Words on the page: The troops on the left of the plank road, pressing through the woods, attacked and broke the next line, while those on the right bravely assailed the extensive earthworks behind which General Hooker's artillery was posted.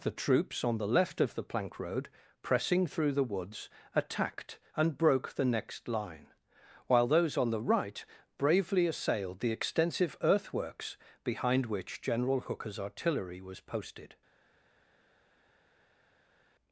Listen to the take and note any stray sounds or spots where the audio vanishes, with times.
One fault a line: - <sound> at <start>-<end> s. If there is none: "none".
none